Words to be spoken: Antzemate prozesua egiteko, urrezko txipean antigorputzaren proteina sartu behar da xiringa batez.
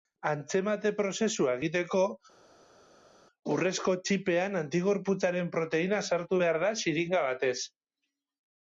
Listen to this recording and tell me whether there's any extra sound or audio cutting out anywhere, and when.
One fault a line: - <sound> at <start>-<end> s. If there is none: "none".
none